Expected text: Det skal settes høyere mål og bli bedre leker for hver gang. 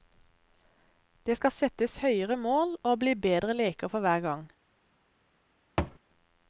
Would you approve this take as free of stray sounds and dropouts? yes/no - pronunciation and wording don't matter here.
no